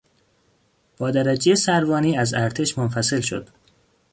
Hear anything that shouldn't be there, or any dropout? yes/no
no